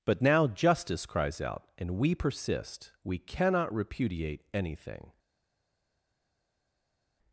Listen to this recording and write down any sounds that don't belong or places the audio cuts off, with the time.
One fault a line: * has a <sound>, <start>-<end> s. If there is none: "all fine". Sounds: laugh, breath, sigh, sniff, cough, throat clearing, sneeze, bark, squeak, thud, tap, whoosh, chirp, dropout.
all fine